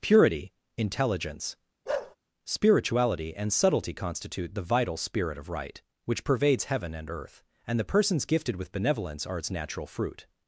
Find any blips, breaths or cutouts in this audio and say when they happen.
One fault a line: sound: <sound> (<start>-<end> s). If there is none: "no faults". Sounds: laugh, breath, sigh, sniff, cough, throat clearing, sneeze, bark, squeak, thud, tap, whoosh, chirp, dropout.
sound: bark (1.9-2.2 s)